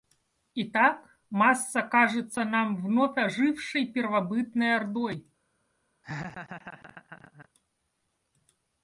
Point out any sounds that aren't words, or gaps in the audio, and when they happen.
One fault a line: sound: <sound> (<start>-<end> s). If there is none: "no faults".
sound: laugh (6.0-7.5 s)